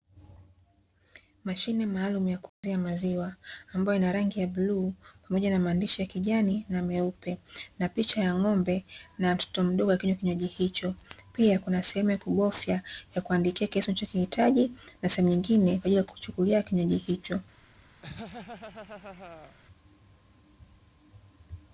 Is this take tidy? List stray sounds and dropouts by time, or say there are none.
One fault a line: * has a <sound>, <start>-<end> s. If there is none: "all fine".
* has a dropout, 2.5-2.6 s
* has a laugh, 18.0-19.6 s